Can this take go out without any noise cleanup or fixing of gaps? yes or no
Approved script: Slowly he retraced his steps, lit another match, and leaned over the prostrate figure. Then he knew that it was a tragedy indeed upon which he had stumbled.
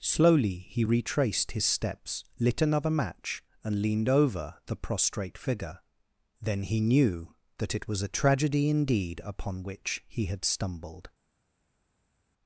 yes